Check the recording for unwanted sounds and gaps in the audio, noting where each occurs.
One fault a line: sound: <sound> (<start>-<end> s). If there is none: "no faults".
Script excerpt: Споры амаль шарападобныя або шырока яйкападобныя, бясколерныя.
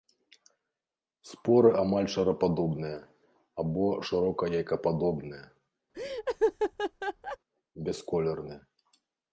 sound: laugh (5.9-7.4 s)